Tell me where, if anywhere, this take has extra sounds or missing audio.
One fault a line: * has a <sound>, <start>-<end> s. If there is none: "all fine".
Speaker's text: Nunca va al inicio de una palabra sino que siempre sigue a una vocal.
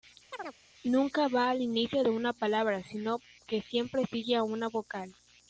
* has a chirp, 0.3-0.6 s